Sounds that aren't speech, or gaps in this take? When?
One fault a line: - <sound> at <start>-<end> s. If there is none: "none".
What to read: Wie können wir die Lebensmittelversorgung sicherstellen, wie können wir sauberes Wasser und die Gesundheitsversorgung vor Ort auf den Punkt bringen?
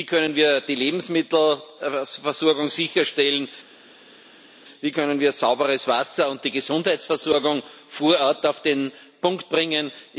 none